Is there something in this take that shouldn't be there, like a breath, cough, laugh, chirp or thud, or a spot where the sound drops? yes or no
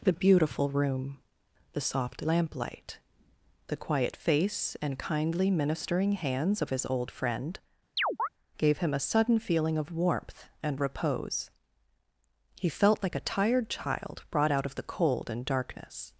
yes